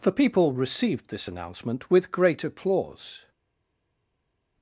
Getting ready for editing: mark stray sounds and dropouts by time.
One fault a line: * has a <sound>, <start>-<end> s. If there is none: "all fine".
all fine